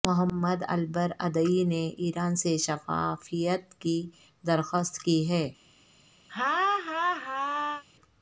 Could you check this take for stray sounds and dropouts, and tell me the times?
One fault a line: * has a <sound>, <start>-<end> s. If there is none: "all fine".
* has a laugh, 6.3-7.8 s